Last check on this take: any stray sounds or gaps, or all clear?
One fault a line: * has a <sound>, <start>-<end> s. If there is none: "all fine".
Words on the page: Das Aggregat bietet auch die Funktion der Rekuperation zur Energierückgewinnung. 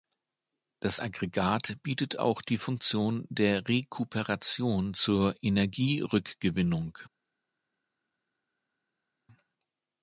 all fine